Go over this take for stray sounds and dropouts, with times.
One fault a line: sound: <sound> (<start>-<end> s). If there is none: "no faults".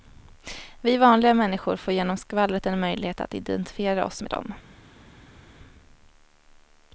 no faults